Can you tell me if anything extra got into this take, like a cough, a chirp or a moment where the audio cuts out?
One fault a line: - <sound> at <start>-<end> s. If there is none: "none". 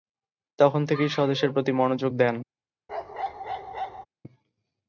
- bark at 2.9-4.1 s